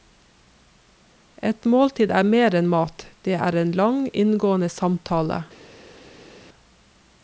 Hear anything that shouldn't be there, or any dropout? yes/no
no